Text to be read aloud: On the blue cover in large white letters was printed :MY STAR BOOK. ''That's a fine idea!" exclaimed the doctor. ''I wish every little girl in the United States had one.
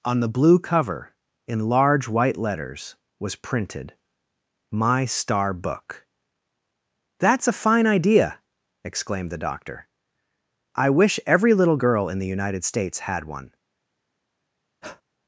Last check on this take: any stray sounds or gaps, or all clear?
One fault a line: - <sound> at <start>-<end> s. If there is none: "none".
- breath at 14.8-15.0 s